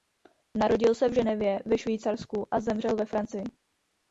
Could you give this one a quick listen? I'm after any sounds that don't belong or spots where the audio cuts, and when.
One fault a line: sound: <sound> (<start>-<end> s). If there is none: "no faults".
no faults